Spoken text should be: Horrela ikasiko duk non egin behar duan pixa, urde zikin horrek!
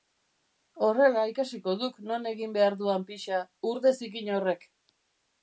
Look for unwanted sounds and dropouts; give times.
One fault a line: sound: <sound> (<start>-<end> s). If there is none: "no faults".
no faults